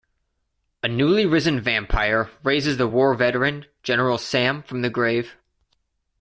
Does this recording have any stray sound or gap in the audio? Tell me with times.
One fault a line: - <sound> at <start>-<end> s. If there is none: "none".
none